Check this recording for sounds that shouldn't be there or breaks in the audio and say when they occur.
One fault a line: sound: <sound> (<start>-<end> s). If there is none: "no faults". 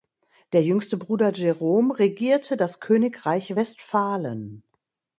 no faults